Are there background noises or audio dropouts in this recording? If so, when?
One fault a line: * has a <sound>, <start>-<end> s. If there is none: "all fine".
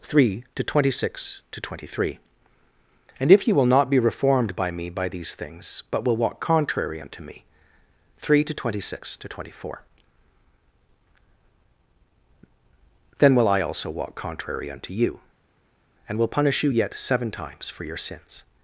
all fine